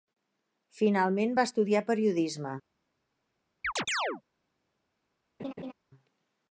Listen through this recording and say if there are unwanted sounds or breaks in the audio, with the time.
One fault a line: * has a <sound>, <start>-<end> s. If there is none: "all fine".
* has a chirp, 3.6-4.2 s
* has a laugh, 5.4-5.7 s